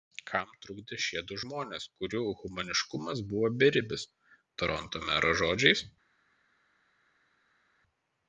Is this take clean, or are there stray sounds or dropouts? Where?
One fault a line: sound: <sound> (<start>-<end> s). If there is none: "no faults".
no faults